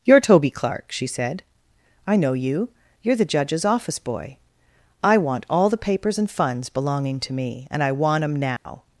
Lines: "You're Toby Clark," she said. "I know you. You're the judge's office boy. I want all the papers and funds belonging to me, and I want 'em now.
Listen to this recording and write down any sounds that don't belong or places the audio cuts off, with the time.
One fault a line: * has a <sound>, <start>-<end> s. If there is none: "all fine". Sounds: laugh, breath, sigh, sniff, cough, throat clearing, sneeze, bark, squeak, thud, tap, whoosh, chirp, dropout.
* has a dropout, 8.6-8.7 s